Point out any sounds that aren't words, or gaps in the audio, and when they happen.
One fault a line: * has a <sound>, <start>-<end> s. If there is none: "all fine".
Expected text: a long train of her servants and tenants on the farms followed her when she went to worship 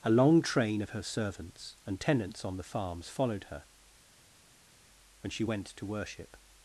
all fine